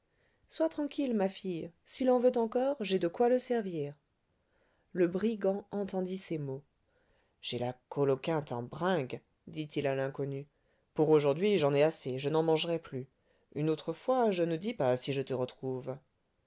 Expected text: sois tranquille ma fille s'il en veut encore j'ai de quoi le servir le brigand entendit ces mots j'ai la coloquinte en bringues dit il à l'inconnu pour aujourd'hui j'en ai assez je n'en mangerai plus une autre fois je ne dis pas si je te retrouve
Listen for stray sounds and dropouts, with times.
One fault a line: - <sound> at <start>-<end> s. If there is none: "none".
none